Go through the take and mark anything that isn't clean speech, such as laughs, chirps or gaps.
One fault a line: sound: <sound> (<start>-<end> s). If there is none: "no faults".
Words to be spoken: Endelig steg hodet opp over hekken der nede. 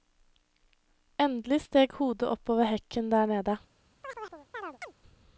sound: chirp (4.0-4.9 s)